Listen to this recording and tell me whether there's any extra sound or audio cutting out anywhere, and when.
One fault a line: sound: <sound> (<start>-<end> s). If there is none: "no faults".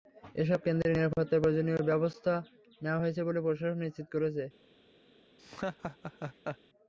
sound: laugh (5.4-6.6 s)